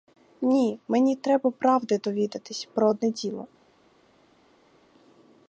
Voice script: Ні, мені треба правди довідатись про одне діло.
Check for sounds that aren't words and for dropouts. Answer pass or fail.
pass